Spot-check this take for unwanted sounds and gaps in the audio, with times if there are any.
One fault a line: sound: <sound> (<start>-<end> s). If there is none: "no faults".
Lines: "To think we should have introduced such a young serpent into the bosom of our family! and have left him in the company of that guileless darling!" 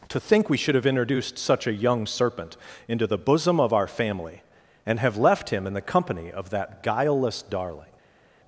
no faults